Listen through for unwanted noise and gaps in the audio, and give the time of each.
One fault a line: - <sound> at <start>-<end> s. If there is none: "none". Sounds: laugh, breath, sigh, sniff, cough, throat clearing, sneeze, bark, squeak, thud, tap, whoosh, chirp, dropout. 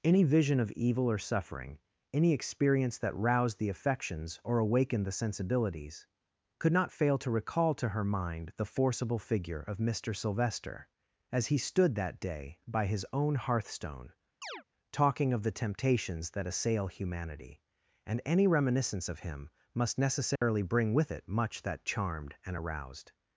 - chirp at 14.4-14.6 s
- dropout at 20.4-20.4 s